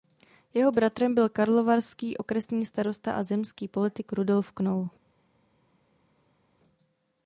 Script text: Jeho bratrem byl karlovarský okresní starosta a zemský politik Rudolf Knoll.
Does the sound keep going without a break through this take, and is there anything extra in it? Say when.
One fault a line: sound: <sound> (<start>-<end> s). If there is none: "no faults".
no faults